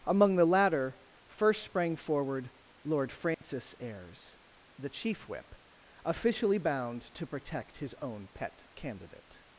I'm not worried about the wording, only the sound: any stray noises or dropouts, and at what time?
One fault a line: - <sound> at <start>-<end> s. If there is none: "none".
- dropout at 3.3-3.4 s